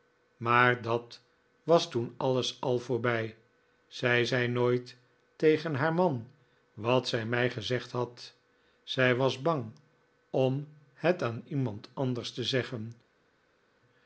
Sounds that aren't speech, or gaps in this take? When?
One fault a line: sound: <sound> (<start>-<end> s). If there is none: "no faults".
no faults